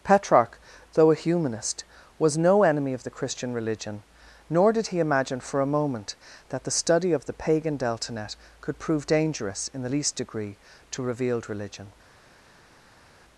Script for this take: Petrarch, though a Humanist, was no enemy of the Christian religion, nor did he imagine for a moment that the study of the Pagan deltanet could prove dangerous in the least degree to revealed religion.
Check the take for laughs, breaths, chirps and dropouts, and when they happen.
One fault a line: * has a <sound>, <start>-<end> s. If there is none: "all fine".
all fine